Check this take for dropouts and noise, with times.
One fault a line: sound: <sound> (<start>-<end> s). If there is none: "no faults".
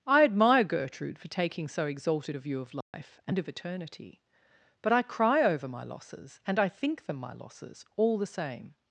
sound: dropout (2.8-2.9 s)